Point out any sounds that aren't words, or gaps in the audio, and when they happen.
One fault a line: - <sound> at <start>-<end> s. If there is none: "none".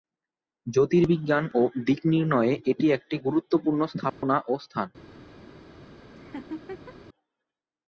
- dropout at 4.1-4.2 s
- laugh at 6.2-6.9 s